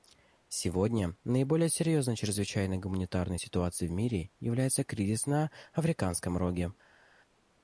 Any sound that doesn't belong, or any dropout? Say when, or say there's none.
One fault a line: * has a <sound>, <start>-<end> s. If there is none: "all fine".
all fine